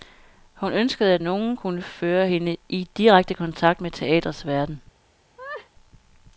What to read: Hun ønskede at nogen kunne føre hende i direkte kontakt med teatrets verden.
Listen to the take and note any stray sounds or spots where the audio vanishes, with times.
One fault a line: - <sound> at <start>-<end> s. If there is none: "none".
- laugh at 5.4-5.7 s